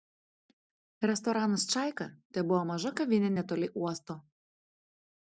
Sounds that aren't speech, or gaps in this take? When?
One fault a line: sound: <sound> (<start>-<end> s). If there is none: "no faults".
no faults